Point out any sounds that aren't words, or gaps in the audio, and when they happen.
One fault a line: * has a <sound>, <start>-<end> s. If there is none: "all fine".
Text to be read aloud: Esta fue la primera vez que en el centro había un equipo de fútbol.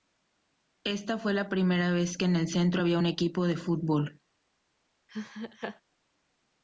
* has a laugh, 5.1-5.8 s